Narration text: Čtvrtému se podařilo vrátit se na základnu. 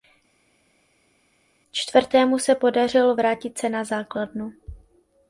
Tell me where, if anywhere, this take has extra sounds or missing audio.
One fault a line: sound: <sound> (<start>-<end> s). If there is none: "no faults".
no faults